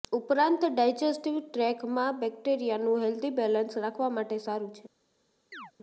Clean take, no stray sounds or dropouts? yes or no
no